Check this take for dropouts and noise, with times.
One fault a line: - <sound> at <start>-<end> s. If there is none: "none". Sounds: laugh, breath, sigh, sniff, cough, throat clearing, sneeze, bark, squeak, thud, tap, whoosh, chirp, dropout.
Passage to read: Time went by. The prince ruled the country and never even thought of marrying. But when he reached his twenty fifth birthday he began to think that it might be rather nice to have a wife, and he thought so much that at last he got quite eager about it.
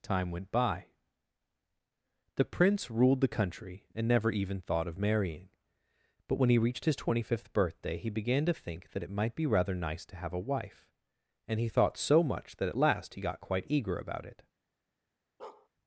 - bark at 15.4-15.7 s